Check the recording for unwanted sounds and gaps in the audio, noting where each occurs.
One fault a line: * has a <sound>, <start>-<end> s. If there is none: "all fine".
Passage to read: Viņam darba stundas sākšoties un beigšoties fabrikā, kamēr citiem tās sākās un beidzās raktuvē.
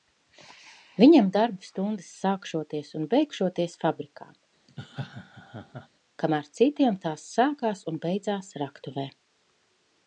* has a laugh, 4.7-5.9 s